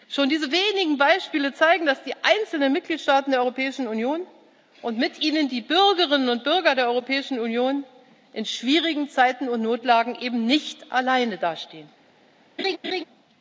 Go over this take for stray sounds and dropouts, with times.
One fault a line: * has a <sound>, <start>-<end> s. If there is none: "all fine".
* has a laugh, 12.6-13.0 s